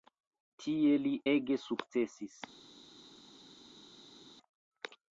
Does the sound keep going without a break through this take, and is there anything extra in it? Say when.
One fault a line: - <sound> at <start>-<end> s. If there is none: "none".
none